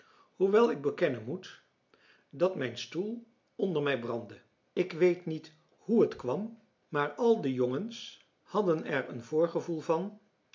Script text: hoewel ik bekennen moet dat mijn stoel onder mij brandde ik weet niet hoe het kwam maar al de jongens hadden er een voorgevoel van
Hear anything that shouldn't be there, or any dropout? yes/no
no